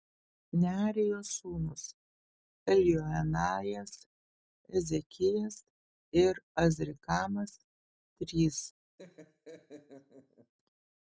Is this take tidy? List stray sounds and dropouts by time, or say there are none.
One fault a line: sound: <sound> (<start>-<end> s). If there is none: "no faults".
sound: laugh (9.0-10.5 s)